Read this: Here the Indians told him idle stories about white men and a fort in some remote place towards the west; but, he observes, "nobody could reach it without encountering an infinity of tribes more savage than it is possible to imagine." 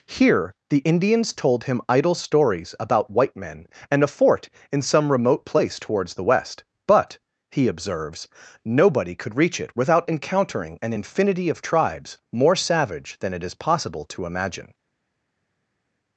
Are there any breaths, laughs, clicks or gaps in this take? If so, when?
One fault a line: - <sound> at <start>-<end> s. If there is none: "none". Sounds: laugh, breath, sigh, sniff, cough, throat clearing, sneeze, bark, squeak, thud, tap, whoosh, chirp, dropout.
none